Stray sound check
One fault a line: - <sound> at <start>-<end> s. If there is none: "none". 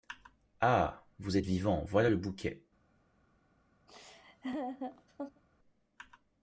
- laugh at 3.9-5.4 s